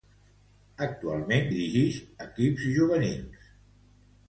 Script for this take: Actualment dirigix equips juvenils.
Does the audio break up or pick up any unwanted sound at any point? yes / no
no